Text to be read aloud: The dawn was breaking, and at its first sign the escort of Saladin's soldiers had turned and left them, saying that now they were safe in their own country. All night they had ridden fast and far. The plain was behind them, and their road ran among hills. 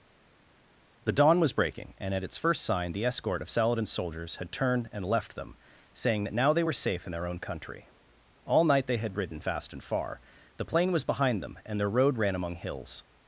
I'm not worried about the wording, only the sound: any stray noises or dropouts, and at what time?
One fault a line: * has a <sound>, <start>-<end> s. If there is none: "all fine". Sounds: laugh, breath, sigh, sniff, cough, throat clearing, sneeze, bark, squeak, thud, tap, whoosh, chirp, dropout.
all fine